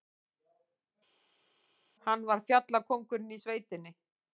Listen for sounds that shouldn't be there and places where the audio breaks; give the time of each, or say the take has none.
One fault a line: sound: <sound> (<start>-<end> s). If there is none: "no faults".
no faults